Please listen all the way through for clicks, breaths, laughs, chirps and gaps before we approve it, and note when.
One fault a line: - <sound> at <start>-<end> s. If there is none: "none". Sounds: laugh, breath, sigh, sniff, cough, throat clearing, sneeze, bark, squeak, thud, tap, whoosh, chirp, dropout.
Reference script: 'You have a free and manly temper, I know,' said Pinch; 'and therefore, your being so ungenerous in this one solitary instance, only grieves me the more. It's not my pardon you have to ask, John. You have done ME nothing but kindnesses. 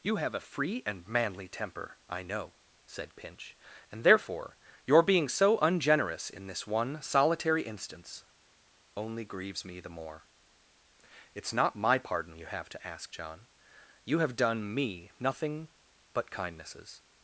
none